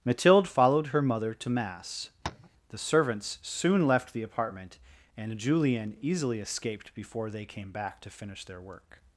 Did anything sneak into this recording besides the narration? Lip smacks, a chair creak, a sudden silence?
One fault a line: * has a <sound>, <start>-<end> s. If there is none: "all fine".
* has a tap, 2.2-2.5 s